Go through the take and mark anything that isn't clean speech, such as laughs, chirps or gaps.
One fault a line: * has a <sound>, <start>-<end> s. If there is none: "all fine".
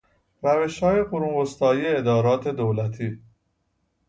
all fine